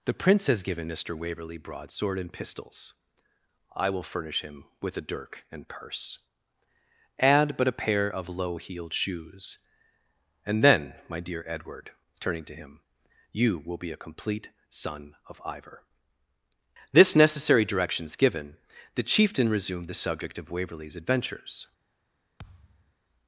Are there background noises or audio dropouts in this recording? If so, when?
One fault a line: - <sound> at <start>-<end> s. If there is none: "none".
- thud at 22.4-22.9 s